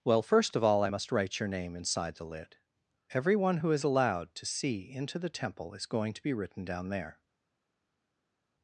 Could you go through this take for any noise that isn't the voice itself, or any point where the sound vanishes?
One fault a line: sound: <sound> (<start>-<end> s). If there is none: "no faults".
no faults